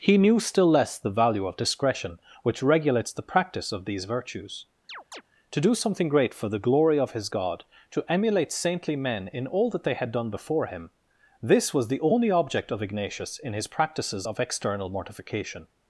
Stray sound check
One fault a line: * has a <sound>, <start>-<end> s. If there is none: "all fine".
* has a chirp, 4.9-5.2 s